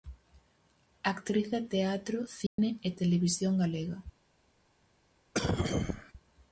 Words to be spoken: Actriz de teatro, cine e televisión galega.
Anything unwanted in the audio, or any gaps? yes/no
yes